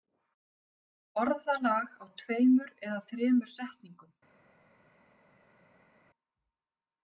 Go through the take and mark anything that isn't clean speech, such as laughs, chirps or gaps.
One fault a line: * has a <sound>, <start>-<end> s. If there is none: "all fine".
all fine